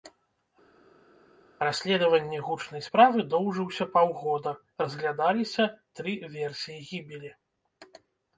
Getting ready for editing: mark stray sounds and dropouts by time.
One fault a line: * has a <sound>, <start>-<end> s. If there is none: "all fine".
all fine